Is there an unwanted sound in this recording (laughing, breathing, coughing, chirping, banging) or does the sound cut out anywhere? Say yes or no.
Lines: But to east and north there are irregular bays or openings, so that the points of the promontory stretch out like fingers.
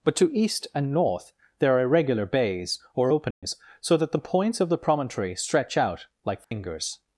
yes